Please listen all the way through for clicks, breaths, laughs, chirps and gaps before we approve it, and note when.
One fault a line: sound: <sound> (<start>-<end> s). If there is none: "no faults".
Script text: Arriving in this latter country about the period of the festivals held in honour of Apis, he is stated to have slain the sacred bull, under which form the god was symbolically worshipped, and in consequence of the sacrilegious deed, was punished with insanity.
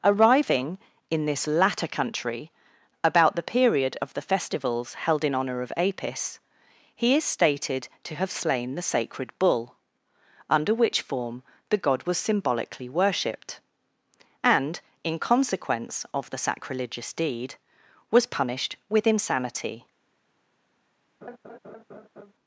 sound: laugh (21.2-22.3 s)